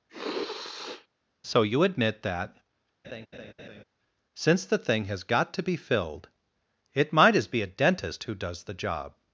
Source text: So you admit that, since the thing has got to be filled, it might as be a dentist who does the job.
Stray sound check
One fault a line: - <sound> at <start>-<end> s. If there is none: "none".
- sniff at 0.1-1.1 s
- laugh at 3.0-3.8 s